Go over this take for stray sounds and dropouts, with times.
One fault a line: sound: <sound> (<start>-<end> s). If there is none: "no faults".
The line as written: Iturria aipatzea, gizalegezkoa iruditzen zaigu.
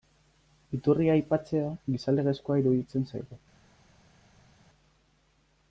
no faults